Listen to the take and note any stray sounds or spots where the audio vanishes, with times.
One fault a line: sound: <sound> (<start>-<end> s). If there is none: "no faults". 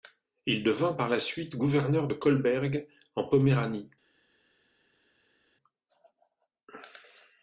no faults